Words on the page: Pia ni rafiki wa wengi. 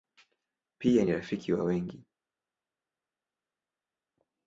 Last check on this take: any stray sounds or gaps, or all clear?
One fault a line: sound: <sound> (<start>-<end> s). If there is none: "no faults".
no faults